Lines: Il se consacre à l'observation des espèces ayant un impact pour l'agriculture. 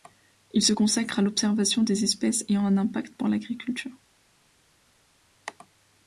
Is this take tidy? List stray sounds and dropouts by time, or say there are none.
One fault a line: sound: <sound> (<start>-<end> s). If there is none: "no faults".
no faults